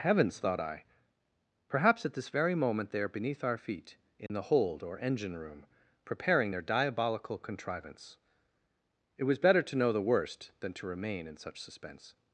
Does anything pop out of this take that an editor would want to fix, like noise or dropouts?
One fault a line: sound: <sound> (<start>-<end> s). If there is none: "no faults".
sound: dropout (4.3-4.3 s)